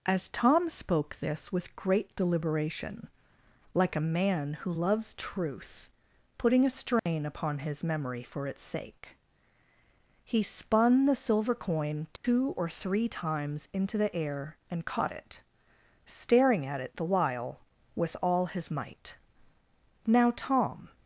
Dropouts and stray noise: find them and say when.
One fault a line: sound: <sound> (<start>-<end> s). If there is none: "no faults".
sound: dropout (7.0-7.1 s)
sound: dropout (12.2-12.2 s)